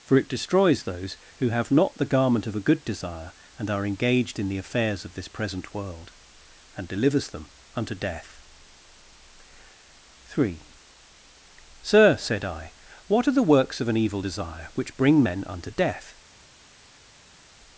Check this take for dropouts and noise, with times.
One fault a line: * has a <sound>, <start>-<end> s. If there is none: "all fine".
all fine